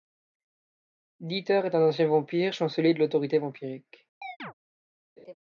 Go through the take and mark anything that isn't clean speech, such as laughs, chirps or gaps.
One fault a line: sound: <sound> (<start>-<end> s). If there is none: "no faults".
sound: chirp (4.2-4.5 s)
sound: laugh (5.2-5.3 s)